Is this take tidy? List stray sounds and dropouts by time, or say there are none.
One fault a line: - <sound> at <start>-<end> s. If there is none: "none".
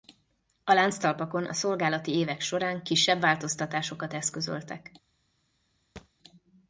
- thud at 6.0-6.1 s